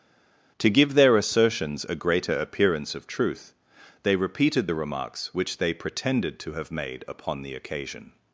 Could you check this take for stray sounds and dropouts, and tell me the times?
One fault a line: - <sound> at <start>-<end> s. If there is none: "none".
none